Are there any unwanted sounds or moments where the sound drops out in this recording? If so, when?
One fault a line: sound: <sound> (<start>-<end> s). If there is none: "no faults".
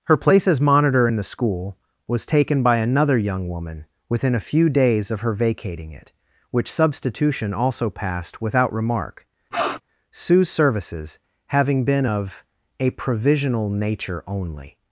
sound: sniff (9.5-9.8 s)